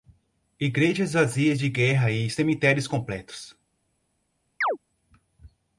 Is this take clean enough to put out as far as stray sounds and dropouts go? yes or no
no